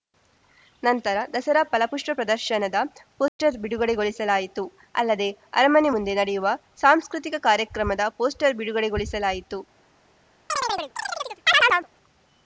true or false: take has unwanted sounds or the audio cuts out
true